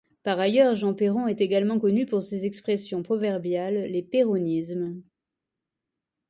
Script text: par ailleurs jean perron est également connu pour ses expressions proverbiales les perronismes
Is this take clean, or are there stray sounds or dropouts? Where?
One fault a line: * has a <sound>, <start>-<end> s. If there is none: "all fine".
all fine